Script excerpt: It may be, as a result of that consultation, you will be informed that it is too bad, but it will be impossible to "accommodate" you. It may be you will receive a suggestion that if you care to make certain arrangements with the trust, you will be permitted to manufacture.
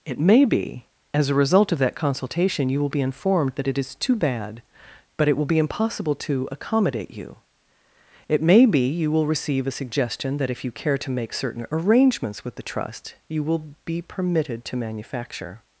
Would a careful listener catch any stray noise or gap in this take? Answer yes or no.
no